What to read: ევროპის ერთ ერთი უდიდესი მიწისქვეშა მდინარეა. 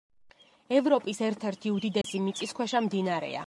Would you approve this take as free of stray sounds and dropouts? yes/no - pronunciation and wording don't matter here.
no